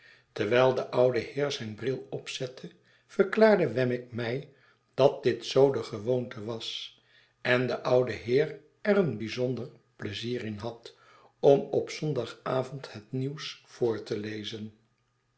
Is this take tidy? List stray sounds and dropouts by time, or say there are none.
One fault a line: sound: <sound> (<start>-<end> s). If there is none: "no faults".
no faults